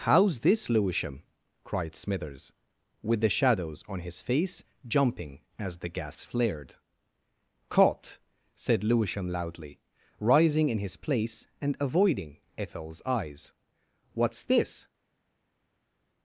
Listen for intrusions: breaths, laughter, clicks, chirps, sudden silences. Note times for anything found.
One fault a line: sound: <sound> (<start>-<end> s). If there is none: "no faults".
no faults